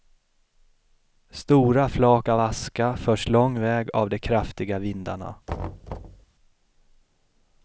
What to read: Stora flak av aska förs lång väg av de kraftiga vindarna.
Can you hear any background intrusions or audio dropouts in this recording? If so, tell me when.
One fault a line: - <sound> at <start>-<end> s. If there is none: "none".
- thud at 5.5-6.3 s